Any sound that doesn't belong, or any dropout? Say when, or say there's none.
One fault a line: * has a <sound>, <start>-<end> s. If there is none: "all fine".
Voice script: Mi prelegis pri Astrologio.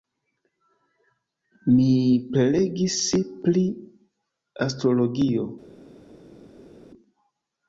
all fine